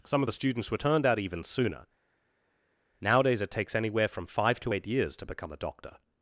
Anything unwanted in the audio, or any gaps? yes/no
no